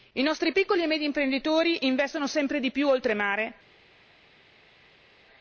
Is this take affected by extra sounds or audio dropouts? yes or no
no